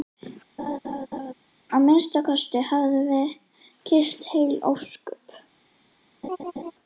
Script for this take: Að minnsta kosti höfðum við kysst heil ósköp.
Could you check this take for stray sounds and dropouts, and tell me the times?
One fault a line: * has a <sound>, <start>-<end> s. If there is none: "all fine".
* has a laugh, 0.6-1.3 s
* has a laugh, 6.2-6.7 s